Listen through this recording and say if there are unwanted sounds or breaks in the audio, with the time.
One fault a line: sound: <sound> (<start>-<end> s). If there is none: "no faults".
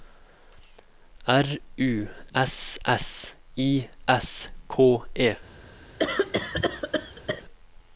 sound: cough (6.0-7.4 s)